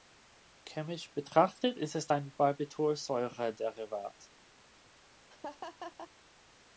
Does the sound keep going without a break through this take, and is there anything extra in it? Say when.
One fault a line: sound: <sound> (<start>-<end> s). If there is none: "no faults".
sound: laugh (5.3-6.1 s)